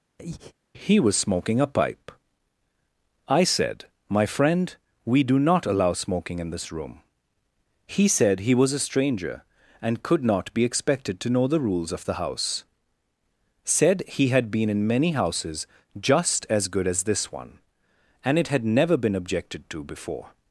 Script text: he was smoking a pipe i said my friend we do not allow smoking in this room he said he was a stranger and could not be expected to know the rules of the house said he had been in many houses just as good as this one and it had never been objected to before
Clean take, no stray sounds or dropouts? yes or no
no